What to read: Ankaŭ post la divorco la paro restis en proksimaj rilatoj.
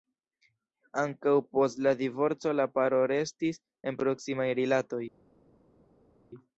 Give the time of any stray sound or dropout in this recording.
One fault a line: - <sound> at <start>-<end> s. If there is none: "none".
none